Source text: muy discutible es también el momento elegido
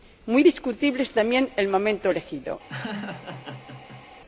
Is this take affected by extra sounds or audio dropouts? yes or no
yes